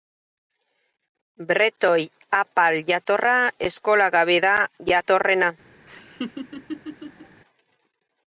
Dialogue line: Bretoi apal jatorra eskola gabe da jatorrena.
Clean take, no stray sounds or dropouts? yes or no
no